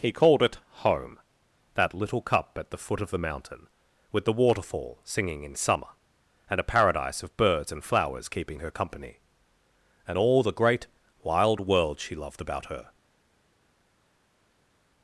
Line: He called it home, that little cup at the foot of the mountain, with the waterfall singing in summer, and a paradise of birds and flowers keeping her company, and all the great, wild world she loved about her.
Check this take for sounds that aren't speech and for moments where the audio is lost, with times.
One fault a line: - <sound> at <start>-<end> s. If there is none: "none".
none